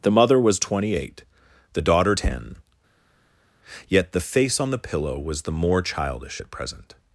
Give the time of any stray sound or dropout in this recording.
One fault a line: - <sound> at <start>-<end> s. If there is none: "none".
none